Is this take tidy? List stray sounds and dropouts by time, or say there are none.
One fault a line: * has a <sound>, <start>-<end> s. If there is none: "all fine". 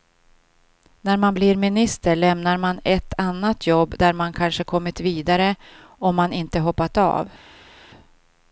all fine